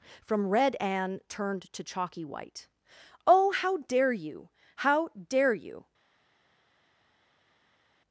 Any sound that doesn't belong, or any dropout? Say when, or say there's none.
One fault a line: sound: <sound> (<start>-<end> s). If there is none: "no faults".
no faults